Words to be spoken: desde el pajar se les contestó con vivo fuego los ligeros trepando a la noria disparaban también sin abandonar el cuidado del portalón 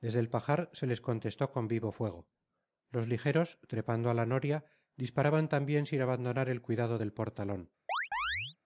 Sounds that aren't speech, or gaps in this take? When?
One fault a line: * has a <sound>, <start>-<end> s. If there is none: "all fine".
* has a chirp, 7.9-8.6 s